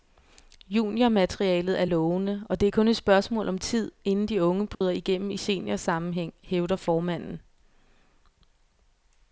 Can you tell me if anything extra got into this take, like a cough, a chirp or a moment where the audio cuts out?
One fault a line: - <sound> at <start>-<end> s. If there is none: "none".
- dropout at 4.7-4.8 s